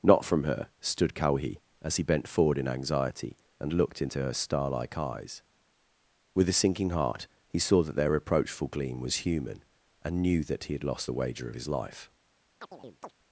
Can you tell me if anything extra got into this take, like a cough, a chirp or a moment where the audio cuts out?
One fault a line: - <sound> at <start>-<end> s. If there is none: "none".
- chirp at 12.6-13.1 s